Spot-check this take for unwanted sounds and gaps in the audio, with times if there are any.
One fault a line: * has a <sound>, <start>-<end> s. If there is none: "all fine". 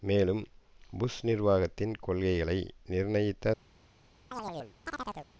* has a chirp, 4.3-5.3 s